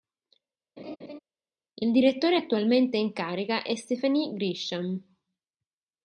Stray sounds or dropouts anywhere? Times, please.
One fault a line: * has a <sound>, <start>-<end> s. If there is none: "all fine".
* has a laugh, 0.8-1.2 s